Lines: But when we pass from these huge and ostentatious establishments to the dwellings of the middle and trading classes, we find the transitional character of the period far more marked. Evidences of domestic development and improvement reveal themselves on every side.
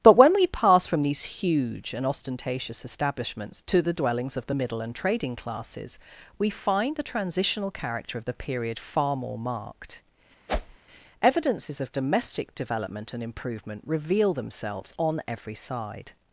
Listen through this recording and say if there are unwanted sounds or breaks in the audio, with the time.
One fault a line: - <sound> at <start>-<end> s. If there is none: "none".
- whoosh at 10.5-10.8 s